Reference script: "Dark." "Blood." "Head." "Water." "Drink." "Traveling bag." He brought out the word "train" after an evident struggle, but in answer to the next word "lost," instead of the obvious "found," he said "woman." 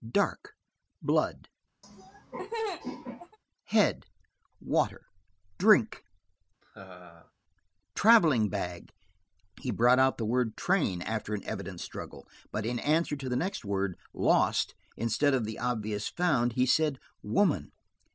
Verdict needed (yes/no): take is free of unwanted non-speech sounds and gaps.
no